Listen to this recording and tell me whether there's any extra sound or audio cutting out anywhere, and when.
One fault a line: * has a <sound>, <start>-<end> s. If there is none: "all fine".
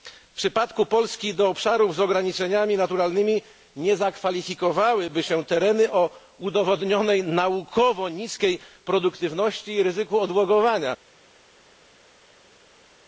all fine